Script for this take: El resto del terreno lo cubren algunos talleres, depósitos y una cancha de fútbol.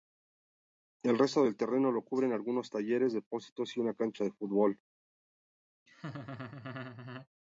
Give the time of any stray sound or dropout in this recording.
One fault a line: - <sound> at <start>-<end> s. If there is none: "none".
- laugh at 5.9-7.3 s